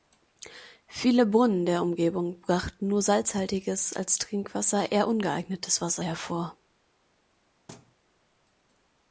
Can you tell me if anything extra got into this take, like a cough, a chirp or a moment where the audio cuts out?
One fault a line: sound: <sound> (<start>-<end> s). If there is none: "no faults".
sound: thud (7.7-8.0 s)